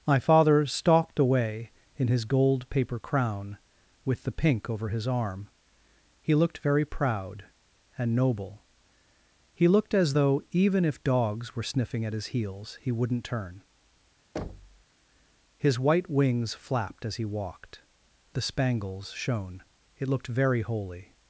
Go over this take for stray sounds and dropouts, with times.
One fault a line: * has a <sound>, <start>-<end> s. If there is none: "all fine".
* has a thud, 14.4-14.9 s